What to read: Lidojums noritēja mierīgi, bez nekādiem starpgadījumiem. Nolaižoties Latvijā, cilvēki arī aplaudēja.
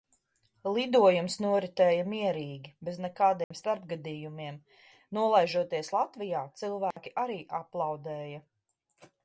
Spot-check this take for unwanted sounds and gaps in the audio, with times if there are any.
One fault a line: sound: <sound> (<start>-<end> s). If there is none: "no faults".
sound: dropout (3.4-3.5 s)
sound: dropout (6.9-7.0 s)